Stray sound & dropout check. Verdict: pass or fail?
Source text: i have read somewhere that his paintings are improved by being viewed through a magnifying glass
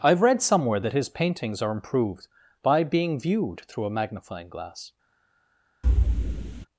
fail